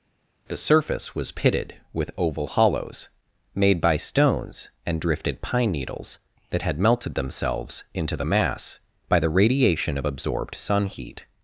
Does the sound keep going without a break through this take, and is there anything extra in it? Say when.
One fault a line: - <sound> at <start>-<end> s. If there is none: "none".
none